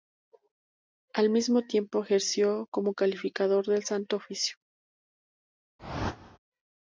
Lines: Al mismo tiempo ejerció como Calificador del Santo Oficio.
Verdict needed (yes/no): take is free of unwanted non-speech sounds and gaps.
no